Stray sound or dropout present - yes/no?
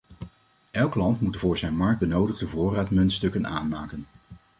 no